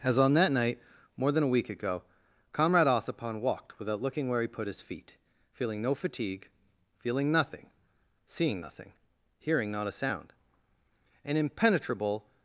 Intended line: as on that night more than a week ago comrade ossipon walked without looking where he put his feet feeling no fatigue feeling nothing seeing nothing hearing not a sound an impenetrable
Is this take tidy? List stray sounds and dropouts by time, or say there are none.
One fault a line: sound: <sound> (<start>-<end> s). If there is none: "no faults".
no faults